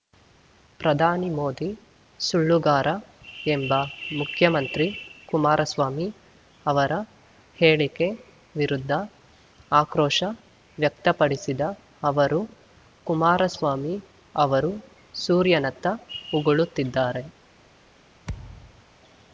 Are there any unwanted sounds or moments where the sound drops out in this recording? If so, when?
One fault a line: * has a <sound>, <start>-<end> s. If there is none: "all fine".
* has a thud, 18.2-18.8 s